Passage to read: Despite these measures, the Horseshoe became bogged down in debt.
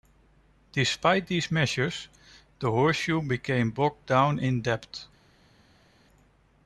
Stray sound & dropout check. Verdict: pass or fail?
pass